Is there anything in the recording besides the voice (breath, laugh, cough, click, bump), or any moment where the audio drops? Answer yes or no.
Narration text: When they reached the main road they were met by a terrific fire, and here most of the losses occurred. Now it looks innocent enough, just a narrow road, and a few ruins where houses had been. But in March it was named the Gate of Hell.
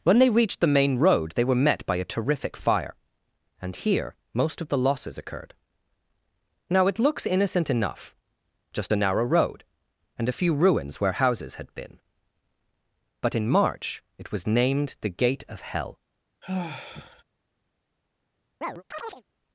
yes